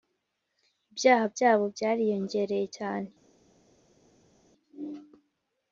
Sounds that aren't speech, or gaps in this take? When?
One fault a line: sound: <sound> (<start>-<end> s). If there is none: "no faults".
no faults